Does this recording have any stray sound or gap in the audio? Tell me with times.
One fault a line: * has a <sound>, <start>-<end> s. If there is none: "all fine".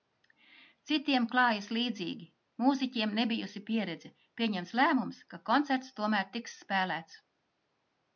all fine